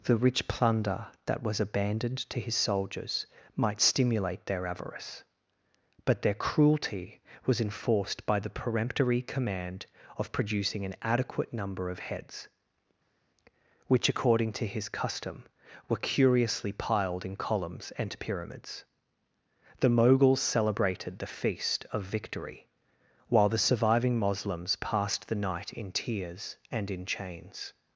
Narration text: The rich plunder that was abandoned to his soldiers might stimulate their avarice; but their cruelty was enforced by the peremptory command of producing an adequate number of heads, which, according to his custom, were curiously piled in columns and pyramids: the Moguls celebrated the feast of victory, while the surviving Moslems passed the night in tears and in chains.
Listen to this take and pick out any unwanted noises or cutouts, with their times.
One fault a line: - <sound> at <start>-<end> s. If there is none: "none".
none